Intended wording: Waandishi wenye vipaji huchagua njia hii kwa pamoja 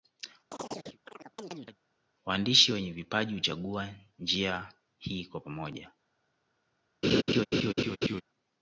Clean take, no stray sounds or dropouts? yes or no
no